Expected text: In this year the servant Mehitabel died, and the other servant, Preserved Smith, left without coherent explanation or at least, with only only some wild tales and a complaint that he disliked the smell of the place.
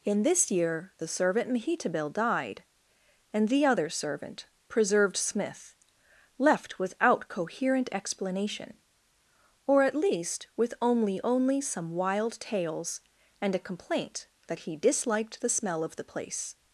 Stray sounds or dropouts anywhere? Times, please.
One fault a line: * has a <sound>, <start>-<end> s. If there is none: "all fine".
all fine